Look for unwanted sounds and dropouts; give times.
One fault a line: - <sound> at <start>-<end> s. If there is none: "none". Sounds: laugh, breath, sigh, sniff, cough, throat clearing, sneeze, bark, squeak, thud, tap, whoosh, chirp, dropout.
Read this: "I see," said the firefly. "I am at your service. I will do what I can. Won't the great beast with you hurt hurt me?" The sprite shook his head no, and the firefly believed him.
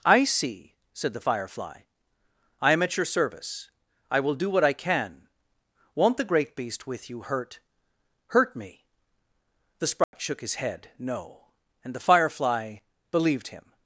- dropout at 10.0-10.1 s